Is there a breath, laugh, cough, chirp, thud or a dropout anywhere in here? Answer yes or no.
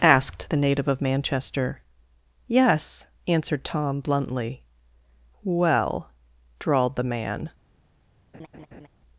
yes